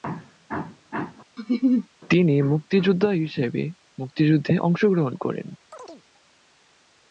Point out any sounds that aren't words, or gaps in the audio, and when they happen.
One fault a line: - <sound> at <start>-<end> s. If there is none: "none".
- laugh at 1.4-1.9 s
- chirp at 5.7-6.0 s